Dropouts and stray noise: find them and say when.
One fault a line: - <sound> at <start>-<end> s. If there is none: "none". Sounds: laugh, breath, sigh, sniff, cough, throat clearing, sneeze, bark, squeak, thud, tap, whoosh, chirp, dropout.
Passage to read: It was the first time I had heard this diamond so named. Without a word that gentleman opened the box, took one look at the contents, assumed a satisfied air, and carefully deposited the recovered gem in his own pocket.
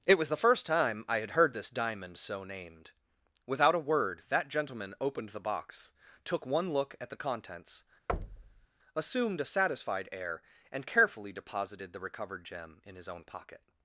- thud at 8.1-8.7 s